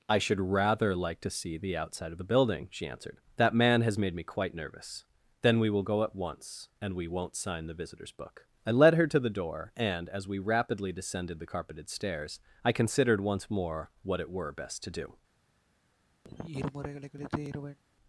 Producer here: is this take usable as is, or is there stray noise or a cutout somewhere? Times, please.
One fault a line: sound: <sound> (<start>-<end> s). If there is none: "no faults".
sound: sigh (16.2-17.8 s)